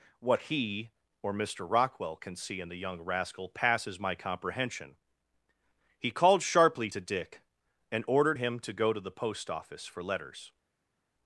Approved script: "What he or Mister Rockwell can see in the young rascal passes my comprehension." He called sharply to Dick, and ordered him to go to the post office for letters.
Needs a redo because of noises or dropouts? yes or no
no